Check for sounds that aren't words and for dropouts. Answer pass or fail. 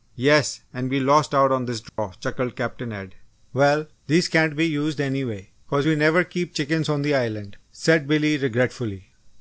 fail